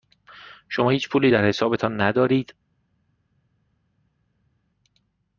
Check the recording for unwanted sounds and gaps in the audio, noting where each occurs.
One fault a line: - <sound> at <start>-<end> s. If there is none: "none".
none